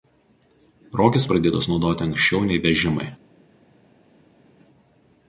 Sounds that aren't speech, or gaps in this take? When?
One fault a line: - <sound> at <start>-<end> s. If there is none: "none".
none